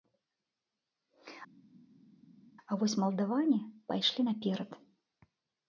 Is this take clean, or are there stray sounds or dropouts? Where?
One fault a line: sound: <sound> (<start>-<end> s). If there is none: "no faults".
no faults